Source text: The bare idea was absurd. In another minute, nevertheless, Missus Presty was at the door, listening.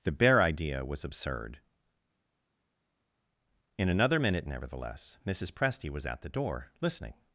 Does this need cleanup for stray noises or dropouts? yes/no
no